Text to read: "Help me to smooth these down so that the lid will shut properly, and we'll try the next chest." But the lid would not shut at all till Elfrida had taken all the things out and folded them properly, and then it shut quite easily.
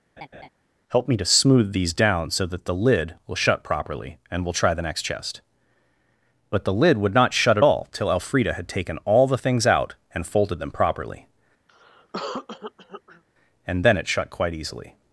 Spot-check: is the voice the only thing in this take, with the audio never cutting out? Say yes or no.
no